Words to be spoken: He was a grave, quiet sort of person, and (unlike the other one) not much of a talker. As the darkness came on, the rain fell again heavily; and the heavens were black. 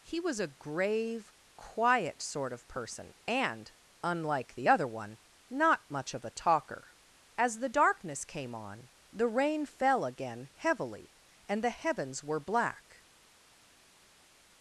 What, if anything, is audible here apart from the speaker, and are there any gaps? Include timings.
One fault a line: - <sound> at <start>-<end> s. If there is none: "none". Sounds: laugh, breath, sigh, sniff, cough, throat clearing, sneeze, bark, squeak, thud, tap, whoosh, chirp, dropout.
none